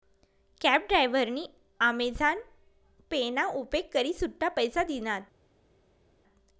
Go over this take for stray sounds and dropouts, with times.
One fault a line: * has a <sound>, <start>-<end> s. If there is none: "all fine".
all fine